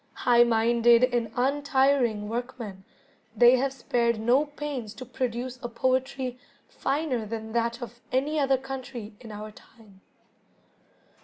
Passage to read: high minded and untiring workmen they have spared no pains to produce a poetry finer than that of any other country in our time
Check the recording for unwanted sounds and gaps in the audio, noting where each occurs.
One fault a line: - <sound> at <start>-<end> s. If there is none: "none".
none